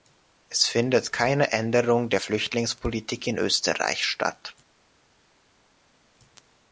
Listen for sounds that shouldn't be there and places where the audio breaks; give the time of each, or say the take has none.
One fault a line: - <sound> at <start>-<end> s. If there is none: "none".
none